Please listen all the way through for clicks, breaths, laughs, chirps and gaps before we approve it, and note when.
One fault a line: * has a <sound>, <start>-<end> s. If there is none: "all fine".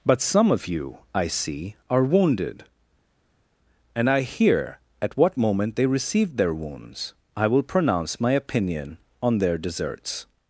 all fine